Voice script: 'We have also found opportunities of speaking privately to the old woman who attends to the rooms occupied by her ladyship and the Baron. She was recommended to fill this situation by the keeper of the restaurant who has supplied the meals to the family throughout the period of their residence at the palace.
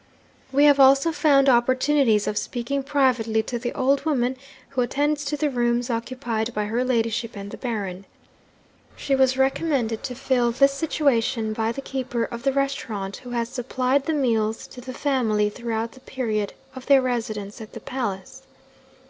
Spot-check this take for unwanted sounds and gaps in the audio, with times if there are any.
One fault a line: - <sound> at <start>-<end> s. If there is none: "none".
none